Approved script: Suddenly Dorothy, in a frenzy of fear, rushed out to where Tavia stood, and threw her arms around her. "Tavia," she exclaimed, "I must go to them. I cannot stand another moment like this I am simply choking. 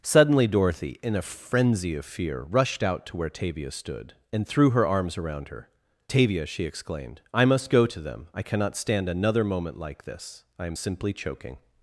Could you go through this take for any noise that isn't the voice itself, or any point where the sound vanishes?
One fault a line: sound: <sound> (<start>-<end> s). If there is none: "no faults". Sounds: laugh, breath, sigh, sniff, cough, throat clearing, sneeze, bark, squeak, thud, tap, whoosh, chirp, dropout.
no faults